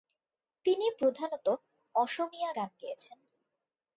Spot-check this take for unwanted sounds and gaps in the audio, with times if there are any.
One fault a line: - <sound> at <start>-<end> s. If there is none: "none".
none